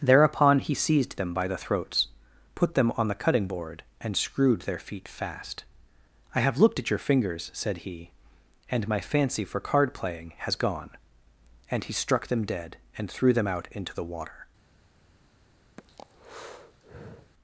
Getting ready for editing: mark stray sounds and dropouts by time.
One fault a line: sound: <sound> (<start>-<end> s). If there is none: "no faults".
sound: breath (15.8-17.3 s)